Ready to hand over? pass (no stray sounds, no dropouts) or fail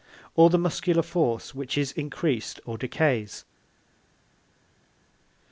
pass